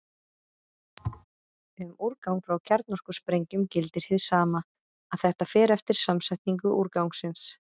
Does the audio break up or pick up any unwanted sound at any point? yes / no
yes